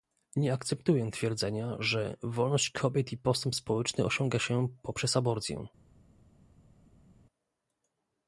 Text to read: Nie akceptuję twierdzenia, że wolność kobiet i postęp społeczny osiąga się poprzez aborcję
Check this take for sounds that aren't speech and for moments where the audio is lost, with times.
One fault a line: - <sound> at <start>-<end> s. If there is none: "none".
none